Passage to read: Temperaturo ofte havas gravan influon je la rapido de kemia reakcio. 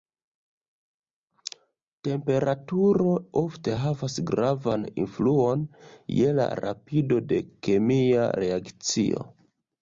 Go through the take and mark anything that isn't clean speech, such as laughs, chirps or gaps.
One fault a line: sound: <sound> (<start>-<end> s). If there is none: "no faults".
no faults